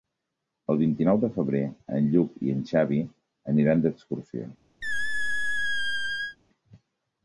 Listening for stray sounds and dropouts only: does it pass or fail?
fail